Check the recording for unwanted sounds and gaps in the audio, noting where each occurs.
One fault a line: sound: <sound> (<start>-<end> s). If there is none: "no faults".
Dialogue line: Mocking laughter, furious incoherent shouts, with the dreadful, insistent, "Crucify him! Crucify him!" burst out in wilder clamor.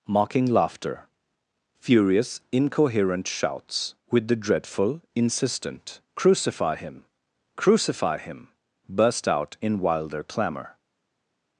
no faults